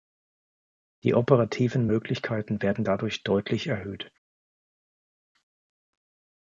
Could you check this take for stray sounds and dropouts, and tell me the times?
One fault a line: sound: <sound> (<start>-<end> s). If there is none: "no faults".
no faults